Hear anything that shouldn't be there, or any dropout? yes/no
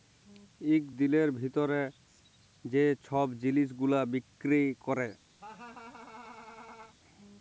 yes